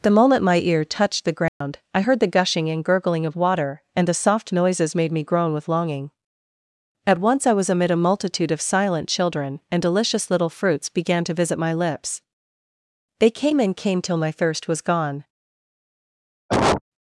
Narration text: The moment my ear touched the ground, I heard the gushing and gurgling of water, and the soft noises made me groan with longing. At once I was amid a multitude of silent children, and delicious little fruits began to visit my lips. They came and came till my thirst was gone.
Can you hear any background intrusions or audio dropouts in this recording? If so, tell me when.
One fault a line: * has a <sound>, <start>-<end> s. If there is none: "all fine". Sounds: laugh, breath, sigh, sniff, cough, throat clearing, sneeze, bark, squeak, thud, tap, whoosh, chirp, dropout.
* has a dropout, 1.5-1.6 s
* has a cough, 16.5-16.8 s